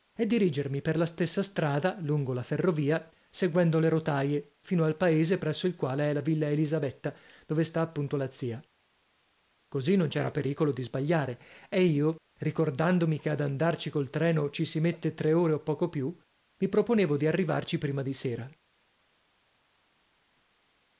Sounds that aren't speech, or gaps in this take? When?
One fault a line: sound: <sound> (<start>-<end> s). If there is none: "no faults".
no faults